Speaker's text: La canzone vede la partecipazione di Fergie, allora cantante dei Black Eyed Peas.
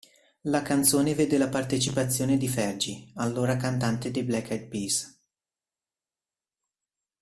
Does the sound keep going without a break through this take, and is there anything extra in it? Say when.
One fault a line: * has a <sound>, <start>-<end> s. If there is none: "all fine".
all fine